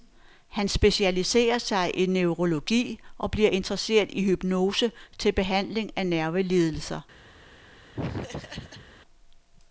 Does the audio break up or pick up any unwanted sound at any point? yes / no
yes